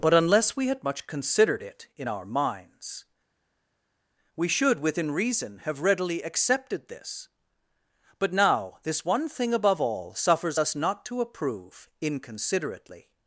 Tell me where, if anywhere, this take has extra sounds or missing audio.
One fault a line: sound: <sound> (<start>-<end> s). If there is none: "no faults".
no faults